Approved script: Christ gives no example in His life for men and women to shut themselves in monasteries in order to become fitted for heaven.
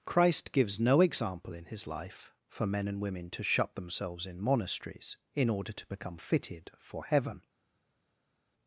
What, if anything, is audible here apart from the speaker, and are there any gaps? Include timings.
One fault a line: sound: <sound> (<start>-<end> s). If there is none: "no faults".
no faults